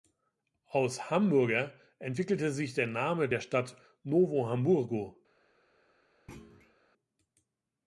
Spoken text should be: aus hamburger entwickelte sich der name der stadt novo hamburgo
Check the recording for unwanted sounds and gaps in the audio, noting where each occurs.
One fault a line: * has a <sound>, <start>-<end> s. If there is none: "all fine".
* has a thud, 6.3-6.8 s